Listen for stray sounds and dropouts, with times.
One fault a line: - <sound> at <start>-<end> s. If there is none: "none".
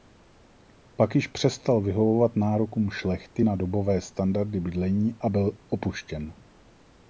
none